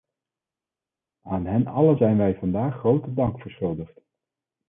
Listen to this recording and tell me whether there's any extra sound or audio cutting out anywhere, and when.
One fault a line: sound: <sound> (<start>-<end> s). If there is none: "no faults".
no faults